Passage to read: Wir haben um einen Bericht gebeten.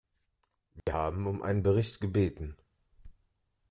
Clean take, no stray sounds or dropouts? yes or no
no